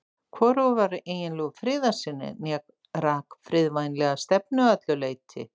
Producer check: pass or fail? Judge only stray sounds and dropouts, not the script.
pass